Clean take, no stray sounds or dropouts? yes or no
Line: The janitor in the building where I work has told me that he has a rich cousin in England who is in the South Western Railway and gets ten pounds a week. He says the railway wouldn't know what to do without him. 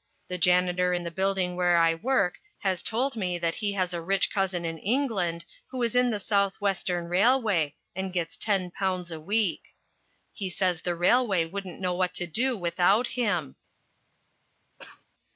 no